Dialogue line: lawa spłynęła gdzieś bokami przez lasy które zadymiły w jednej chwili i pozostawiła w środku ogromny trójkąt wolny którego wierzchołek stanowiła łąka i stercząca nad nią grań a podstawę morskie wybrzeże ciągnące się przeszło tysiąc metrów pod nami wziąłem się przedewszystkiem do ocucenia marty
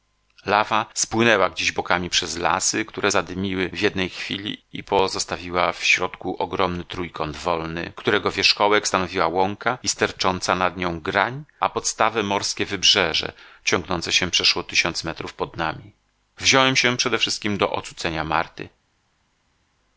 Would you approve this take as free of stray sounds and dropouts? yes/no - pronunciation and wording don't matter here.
yes